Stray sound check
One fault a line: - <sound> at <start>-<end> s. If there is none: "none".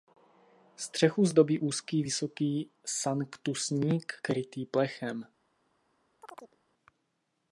- chirp at 6.2-6.6 s